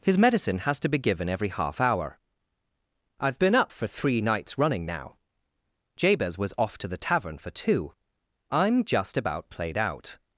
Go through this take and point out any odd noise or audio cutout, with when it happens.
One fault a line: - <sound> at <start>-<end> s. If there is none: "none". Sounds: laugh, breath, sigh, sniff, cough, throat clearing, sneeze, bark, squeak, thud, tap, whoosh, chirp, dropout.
none